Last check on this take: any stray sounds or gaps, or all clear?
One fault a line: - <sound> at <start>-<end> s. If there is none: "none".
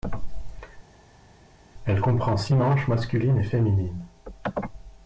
none